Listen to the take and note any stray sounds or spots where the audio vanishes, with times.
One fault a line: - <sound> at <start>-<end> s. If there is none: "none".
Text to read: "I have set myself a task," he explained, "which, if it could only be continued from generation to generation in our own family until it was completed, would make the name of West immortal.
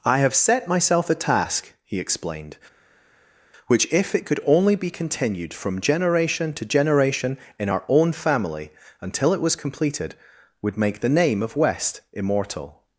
none